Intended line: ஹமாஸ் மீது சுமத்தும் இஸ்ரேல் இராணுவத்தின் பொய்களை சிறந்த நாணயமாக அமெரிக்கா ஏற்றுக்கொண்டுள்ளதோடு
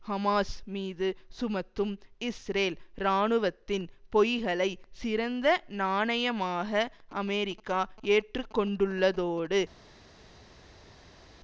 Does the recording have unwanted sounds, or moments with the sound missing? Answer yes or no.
no